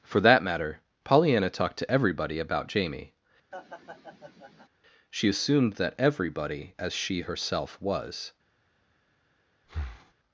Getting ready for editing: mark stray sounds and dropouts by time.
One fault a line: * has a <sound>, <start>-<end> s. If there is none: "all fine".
* has a laugh, 3.5-4.7 s
* has a breath, 9.6-10.1 s